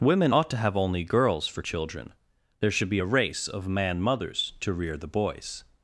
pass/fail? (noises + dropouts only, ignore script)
pass